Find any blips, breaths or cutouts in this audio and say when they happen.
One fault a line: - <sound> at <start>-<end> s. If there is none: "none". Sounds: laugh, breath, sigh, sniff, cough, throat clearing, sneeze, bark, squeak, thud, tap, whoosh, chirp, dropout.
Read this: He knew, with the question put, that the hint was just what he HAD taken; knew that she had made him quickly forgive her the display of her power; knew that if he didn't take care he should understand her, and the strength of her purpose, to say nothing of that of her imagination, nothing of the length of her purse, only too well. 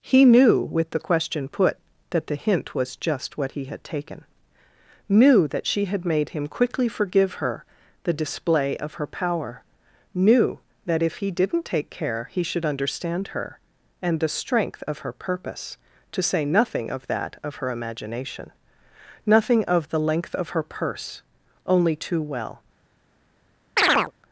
- chirp at 23.8-24.1 s